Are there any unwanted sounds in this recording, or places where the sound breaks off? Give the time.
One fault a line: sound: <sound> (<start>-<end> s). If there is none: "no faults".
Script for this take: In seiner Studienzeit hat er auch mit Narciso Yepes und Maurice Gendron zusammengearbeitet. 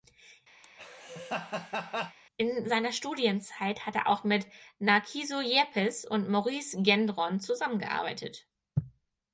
sound: laugh (0.6-2.2 s)